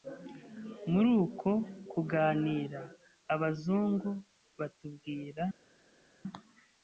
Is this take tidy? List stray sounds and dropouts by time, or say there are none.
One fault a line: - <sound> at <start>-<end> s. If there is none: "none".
none